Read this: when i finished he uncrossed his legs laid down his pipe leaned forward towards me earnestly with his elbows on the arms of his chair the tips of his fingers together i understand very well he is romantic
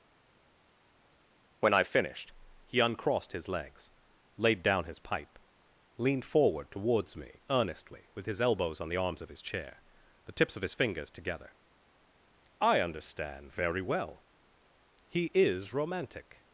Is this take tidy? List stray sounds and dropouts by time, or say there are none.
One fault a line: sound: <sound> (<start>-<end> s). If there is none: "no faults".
no faults